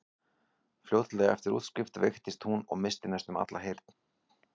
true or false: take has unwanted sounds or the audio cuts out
false